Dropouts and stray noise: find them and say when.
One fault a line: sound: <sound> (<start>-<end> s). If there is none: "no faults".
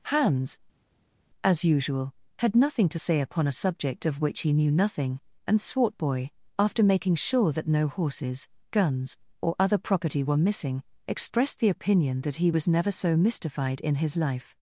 no faults